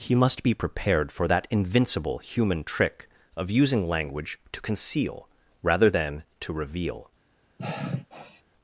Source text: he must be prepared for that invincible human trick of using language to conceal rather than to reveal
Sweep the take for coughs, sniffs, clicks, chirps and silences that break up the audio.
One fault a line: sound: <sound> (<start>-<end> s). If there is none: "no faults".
sound: sigh (7.6-8.4 s)